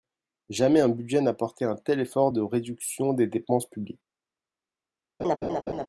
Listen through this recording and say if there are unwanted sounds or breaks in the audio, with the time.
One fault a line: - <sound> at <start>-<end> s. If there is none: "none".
- laugh at 5.2-5.9 s